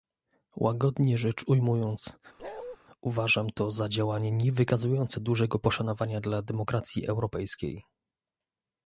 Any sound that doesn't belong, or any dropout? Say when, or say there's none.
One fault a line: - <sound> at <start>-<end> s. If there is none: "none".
- bark at 2.4-2.8 s